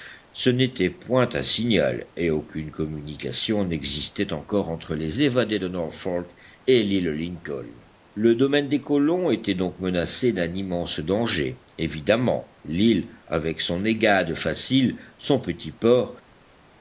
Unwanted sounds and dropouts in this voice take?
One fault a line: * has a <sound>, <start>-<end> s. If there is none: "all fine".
all fine